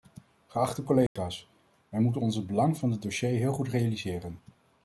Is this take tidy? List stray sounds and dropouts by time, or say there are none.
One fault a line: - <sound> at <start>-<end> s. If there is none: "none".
- dropout at 1.1-1.2 s